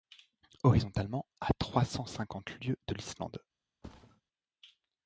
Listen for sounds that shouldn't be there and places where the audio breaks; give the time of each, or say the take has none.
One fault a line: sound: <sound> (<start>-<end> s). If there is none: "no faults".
sound: thud (3.8-4.2 s)